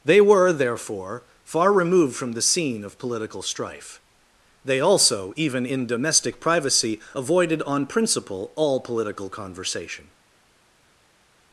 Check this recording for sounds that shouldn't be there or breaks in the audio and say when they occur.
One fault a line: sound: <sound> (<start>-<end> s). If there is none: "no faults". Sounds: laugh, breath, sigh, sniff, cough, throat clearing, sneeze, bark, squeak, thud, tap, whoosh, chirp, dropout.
no faults